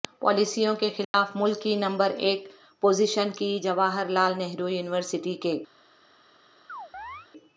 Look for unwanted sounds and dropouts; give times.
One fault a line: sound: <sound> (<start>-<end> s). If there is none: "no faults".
sound: dropout (1.0-1.1 s)
sound: chirp (6.7-7.3 s)